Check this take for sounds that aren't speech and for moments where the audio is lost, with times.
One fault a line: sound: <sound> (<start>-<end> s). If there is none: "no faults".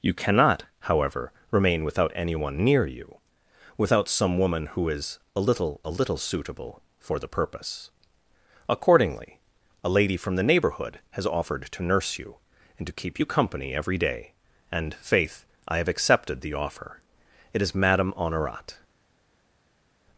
no faults